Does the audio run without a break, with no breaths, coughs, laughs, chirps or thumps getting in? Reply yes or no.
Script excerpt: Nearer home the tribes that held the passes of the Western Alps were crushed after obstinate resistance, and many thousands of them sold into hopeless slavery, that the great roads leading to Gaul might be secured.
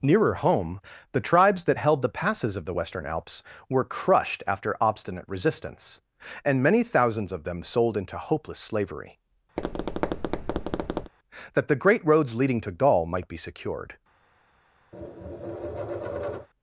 no